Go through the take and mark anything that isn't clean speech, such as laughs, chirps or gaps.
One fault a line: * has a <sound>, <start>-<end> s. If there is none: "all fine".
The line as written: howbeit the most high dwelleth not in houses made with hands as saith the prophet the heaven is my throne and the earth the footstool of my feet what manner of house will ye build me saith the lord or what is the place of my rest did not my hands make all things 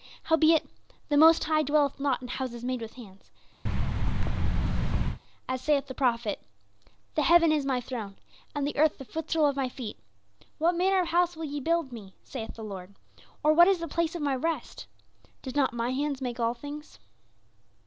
* has a thud, 3.7-5.2 s